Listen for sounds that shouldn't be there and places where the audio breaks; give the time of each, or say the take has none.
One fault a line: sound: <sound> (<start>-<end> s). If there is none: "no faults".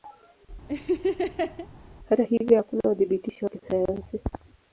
sound: laugh (0.7-1.7 s)